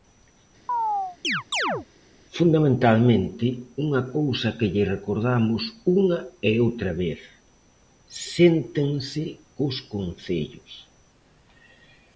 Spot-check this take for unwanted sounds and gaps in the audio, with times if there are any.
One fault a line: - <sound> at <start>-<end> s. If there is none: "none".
- chirp at 0.7-1.9 s